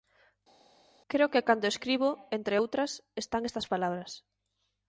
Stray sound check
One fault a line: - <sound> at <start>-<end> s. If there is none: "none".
none